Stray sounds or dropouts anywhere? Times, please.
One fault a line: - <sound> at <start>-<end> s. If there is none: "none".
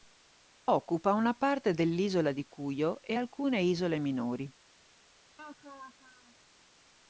- laugh at 5.4-6.4 s